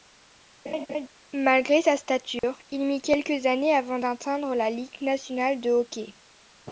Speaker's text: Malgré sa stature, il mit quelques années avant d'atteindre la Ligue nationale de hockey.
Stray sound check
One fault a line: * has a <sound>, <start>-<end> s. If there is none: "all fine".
* has a laugh, 0.7-1.1 s
* has a dropout, 2.4-2.4 s